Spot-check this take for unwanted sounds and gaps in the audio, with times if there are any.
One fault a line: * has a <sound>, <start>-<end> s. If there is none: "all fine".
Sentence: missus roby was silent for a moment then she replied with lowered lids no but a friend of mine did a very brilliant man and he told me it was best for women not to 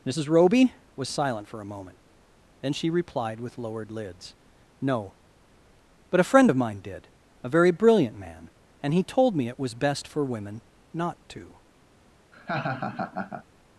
* has a laugh, 12.3-13.4 s